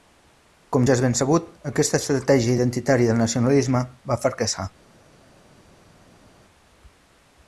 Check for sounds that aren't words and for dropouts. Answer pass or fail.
pass